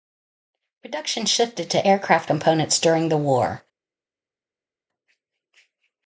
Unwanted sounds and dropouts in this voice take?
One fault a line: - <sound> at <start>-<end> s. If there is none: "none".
none